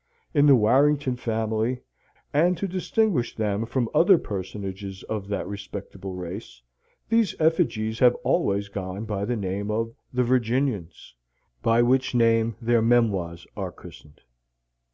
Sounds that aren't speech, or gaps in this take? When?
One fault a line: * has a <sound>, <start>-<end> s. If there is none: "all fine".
all fine